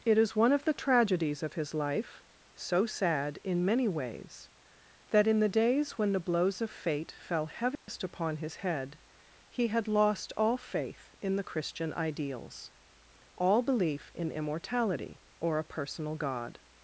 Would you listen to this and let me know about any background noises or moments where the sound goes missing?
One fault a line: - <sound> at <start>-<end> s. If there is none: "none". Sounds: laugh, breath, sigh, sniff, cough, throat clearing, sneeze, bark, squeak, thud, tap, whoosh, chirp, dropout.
- dropout at 7.8-7.9 s